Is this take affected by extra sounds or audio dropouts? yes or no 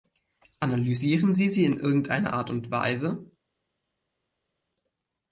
no